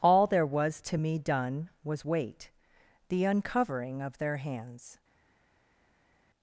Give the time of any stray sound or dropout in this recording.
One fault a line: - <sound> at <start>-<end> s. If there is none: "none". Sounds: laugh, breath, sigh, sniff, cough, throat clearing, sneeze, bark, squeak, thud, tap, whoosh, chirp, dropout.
none